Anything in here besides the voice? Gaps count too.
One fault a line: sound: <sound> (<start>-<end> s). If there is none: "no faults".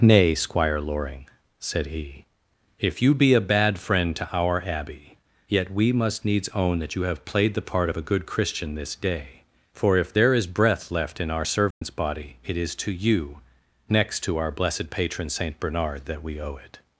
sound: dropout (11.7-11.8 s)